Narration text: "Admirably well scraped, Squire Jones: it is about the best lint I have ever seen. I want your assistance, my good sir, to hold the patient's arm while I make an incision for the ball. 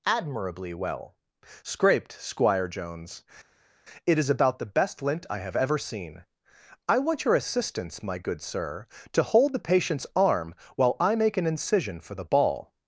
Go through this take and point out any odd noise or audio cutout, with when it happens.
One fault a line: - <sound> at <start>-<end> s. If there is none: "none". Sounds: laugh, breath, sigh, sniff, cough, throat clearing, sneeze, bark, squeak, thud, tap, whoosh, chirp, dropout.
none